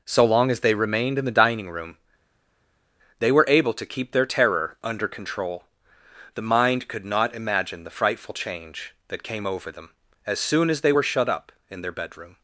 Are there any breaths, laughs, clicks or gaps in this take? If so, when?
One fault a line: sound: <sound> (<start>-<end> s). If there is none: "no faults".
no faults